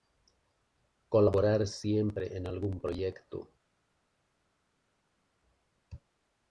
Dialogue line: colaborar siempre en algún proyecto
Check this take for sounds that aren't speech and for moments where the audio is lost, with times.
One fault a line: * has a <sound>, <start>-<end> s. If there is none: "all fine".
all fine